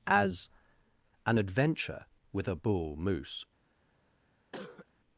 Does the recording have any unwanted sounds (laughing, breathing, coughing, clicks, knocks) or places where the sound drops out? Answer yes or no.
yes